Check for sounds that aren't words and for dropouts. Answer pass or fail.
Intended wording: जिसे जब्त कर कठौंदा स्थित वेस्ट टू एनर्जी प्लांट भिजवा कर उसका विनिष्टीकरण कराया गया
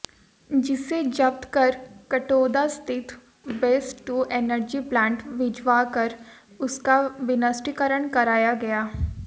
pass